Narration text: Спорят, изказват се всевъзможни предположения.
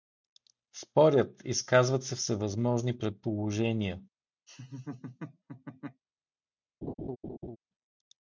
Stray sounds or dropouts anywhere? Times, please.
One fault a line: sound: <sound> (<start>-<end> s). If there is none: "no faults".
sound: laugh (4.5-6.0 s)
sound: laugh (6.8-7.6 s)